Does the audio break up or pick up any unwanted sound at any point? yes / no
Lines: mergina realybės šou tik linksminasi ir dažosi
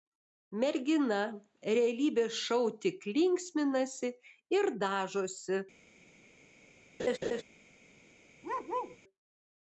yes